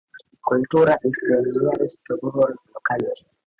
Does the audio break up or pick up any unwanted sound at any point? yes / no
no